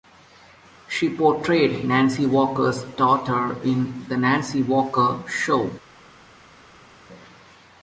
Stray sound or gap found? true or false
false